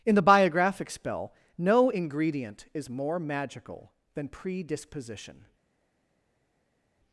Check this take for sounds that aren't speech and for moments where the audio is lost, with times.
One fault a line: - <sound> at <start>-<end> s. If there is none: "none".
none